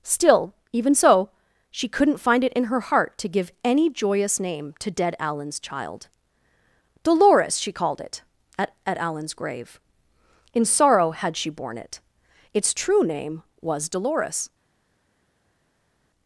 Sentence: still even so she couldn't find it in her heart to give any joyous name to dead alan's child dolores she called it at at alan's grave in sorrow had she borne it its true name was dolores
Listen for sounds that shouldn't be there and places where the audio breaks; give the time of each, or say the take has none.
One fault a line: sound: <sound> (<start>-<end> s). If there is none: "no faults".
no faults